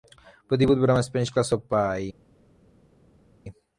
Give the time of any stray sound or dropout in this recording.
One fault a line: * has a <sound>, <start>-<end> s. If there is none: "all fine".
all fine